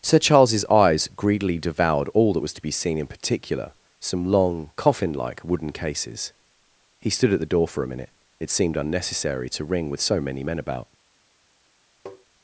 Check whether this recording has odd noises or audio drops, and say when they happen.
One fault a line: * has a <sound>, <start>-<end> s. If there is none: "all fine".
* has a tap, 12.1-12.3 s